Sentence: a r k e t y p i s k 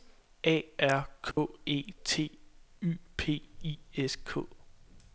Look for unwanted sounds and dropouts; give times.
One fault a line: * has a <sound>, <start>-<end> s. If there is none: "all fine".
* has a dropout, 1.3-1.4 s